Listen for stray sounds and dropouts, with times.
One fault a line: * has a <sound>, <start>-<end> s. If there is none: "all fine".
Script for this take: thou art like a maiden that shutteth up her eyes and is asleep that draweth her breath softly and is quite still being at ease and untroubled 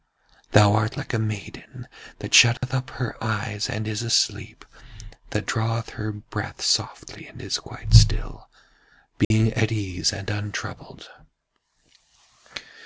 * has a dropout, 2.6-2.6 s
* has a dropout, 9.2-9.3 s